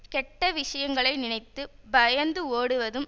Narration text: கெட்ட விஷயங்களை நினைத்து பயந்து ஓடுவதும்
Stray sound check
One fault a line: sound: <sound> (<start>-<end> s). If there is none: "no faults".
no faults